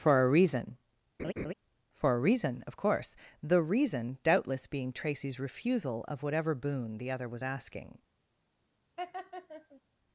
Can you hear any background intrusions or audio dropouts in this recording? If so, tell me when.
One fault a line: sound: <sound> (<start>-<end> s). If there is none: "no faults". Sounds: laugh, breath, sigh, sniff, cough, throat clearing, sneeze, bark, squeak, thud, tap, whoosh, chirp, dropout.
sound: laugh (1.2-1.5 s)
sound: laugh (9.0-9.8 s)